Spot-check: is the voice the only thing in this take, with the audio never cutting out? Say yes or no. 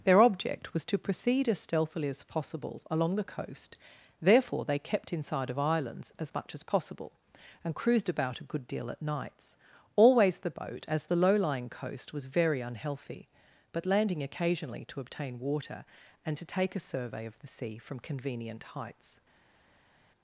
yes